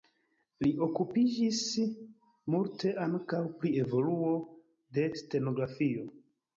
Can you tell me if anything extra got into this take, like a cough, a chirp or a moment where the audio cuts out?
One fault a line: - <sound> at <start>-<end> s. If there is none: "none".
none